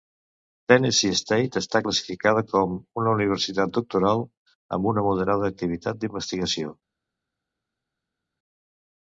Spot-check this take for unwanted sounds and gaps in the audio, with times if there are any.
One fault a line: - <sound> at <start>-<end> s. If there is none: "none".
none